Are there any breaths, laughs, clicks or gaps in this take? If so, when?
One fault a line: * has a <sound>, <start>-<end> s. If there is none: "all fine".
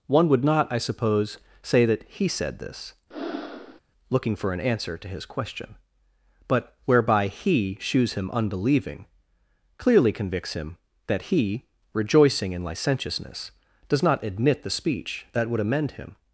* has a breath, 3.1-3.8 s